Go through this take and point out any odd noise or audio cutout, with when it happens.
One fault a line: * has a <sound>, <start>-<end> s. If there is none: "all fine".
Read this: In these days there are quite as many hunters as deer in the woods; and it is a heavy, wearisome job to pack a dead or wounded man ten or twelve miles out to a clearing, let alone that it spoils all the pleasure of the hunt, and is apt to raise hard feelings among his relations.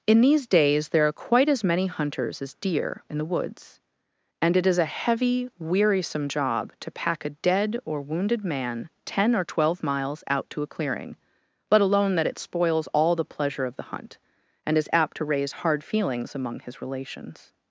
all fine